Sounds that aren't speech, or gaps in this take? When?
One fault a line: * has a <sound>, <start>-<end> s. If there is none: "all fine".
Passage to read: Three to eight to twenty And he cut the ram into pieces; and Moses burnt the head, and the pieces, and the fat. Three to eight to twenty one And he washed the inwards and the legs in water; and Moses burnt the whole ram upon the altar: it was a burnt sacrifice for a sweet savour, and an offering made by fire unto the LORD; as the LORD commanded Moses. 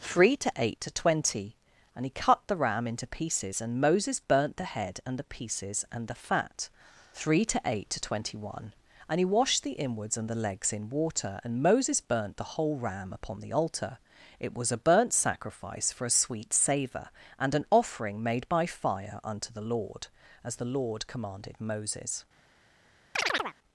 * has a chirp, 23.1-23.6 s